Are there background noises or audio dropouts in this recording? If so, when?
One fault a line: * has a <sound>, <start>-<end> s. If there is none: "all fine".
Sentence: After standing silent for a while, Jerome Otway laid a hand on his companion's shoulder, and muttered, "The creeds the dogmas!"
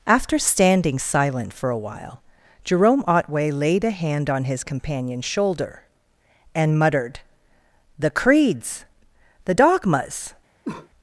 * has a cough, 10.6-10.9 s